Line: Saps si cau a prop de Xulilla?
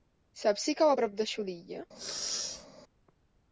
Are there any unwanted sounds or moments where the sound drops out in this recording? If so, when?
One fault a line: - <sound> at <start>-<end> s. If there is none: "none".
- sneeze at 1.9-2.7 s